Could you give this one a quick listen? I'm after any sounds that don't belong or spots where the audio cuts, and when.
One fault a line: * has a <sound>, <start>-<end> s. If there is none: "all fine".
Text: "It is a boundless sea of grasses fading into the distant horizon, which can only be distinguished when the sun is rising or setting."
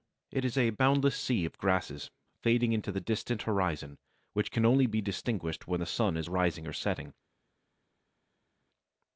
all fine